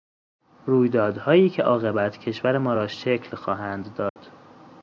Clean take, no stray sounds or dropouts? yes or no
no